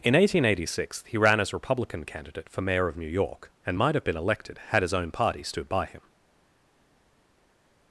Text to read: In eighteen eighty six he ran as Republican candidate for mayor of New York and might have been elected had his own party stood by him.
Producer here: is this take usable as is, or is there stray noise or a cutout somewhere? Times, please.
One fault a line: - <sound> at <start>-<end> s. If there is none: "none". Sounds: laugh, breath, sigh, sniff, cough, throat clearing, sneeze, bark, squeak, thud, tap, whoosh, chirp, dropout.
none